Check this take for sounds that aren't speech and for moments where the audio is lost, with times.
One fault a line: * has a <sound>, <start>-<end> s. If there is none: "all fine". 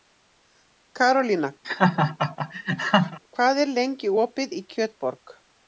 * has a laugh, 1.6-3.2 s